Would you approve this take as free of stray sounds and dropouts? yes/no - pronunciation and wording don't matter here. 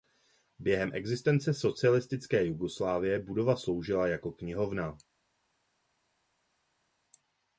yes